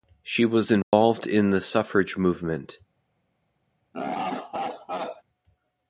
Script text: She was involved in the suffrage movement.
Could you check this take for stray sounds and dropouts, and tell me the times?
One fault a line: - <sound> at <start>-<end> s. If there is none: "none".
- dropout at 0.8-0.9 s
- laugh at 3.9-5.2 s